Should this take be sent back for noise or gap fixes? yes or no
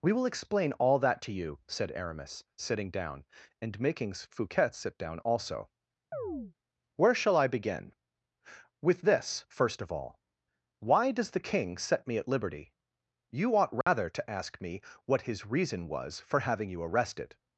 yes